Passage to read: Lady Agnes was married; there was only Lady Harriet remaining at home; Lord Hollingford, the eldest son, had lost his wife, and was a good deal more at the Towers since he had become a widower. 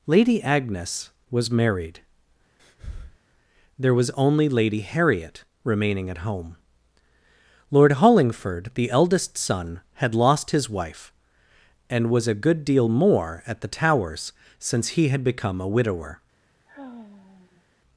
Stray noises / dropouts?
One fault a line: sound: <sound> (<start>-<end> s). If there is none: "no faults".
sound: breath (2.6-3.2 s)
sound: sigh (16.7-17.6 s)